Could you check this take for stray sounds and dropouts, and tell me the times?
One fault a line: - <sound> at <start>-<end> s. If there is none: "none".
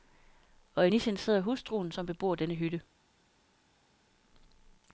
none